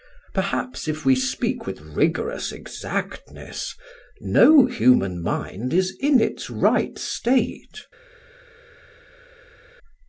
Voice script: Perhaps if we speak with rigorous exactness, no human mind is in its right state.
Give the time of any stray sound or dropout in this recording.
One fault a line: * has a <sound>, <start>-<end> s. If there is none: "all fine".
all fine